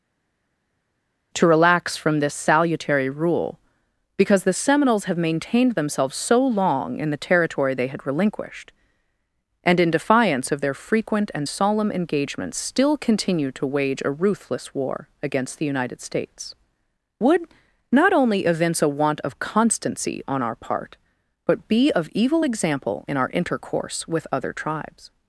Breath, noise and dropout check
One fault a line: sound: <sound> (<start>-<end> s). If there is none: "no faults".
no faults